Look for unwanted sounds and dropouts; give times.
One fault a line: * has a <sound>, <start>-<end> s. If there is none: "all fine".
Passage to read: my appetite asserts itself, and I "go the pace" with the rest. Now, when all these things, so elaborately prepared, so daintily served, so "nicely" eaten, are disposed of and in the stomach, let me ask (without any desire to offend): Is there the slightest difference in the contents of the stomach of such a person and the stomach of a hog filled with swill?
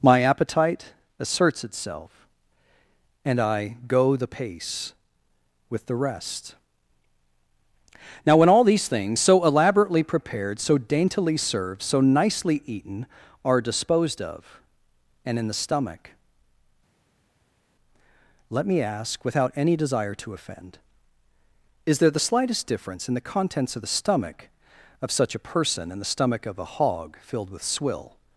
all fine